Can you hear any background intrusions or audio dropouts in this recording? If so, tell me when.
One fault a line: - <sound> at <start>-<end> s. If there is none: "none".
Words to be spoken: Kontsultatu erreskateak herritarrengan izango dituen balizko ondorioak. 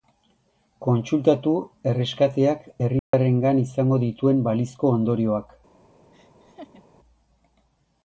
- dropout at 3.0-3.1 s
- laugh at 6.1-6.8 s